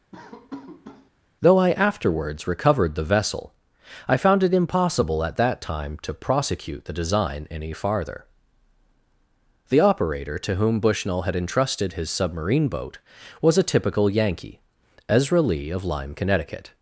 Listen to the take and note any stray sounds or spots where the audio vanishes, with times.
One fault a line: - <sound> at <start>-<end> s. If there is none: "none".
- laugh at 0.1-1.1 s